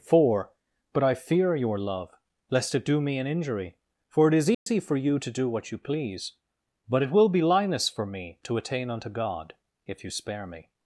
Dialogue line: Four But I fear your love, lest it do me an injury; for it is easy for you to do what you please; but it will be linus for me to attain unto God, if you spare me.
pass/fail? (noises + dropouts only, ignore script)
fail